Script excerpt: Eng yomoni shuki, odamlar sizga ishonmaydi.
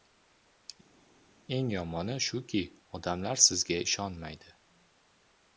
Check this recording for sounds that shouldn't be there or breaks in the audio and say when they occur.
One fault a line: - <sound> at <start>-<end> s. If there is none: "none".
none